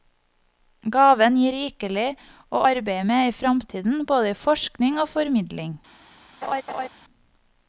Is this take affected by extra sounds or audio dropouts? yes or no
yes